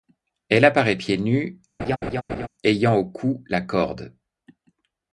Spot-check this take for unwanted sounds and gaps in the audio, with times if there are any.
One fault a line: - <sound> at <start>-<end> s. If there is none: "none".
- laugh at 1.8-2.5 s